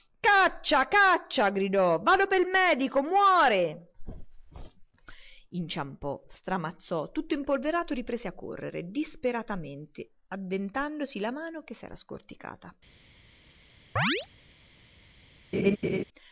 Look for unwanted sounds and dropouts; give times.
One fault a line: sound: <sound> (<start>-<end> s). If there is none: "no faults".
sound: chirp (14.0-14.3 s)
sound: laugh (15.5-16.0 s)